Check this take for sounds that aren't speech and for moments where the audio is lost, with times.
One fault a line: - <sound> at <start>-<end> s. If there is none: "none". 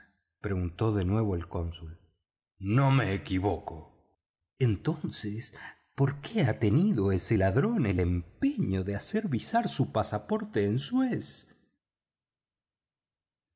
none